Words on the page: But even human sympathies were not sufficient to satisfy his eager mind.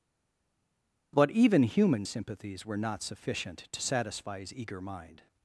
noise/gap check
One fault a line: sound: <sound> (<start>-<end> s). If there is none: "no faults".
no faults